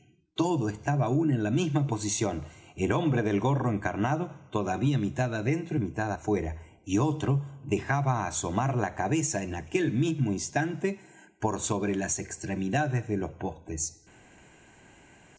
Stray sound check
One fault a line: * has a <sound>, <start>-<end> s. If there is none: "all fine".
all fine